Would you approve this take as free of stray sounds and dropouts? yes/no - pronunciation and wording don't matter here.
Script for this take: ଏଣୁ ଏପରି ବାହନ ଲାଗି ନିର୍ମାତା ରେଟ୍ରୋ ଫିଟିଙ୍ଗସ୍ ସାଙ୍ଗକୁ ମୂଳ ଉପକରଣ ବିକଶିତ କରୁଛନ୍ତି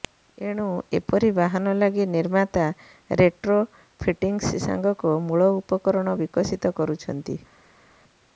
yes